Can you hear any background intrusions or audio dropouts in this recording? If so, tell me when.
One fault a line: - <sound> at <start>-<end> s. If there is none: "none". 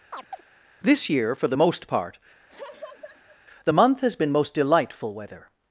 - chirp at 0.1-0.4 s
- laugh at 2.5-3.4 s